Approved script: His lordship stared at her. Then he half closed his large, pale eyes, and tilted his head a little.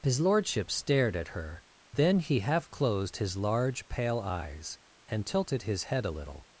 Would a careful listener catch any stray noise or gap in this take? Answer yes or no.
no